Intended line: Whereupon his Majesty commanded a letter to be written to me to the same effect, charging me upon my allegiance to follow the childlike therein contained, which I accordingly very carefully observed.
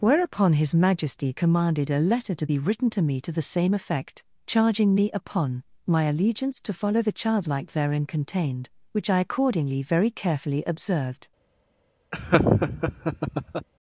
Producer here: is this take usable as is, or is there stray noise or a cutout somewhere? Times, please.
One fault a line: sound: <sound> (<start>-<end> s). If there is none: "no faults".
sound: laugh (12.1-13.7 s)